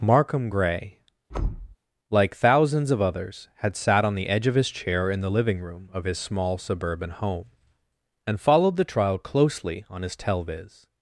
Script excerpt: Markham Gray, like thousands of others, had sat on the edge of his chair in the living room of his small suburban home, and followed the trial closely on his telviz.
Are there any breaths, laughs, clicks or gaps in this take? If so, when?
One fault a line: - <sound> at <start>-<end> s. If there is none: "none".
- thud at 1.3-1.8 s